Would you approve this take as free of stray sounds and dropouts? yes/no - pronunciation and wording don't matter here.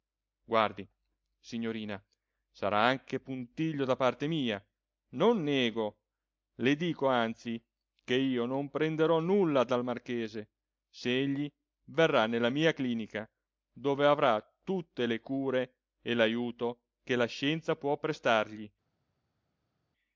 yes